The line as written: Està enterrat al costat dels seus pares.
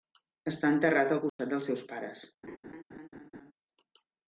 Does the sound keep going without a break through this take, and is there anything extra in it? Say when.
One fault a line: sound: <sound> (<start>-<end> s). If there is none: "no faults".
sound: dropout (1.3-1.4 s)
sound: laugh (2.4-3.5 s)